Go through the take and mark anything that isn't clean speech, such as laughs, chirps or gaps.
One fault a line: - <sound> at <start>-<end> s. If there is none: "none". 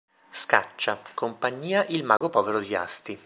- dropout at 2.2-2.2 s